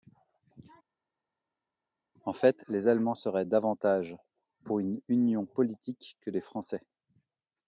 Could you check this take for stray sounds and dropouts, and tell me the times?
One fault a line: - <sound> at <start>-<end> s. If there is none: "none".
none